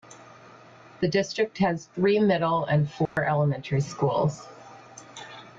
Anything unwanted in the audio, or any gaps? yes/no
yes